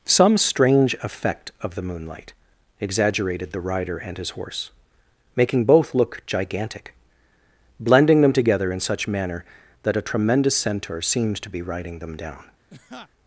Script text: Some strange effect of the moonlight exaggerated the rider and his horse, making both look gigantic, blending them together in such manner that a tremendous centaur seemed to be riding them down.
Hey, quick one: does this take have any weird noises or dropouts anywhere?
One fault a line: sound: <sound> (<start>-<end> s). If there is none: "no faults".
sound: laugh (12.7-13.1 s)